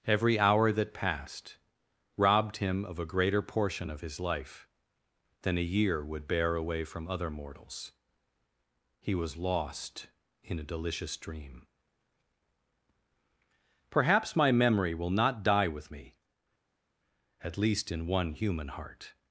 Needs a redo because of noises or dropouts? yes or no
no